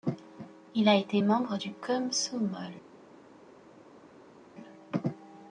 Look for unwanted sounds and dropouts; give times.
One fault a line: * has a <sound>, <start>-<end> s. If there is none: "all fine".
all fine